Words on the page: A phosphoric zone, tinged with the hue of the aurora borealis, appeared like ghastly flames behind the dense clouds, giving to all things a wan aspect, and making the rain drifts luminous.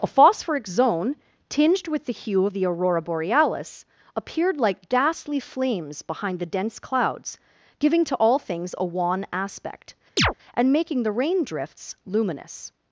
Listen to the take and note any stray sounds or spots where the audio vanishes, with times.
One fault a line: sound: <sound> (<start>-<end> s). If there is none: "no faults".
sound: chirp (10.2-10.3 s)